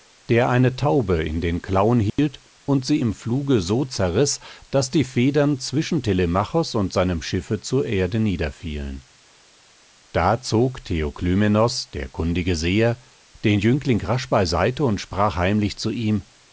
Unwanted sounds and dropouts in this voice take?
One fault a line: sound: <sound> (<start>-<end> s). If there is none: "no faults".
sound: dropout (2.1-2.2 s)